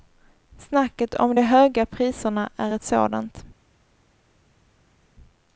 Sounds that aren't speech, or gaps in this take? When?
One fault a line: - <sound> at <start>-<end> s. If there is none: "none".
none